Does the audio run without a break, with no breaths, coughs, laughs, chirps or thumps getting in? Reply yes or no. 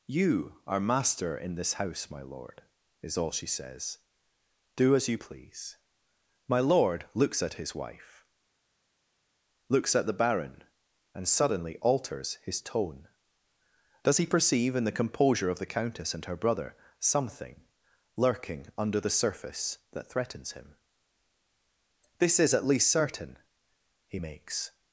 yes